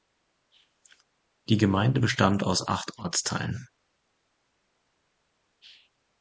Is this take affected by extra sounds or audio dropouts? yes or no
no